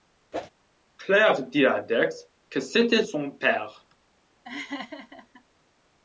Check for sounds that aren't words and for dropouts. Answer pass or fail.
fail